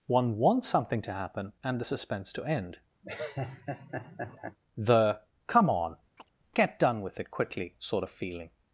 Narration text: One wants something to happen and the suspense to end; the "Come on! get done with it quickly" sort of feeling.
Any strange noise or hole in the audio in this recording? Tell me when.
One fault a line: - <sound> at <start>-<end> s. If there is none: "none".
- laugh at 3.0-4.6 s
- chirp at 6.2-6.3 s